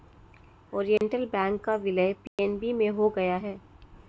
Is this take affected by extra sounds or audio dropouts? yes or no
yes